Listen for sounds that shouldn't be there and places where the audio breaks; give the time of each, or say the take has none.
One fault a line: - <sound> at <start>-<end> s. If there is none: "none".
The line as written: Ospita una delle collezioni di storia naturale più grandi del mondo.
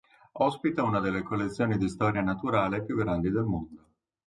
none